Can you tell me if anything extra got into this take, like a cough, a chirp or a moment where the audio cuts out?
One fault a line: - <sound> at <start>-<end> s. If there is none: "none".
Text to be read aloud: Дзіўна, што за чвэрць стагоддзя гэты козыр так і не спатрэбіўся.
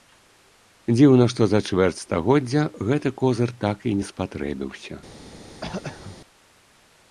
- throat clearing at 5.6-6.2 s